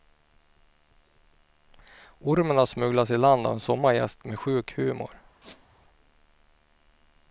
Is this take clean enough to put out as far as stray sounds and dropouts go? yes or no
no